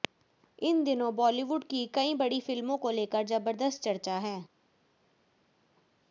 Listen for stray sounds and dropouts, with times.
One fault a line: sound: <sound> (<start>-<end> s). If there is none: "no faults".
no faults